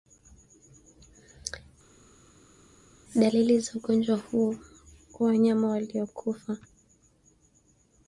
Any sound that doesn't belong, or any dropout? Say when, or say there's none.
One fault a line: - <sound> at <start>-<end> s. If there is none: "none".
none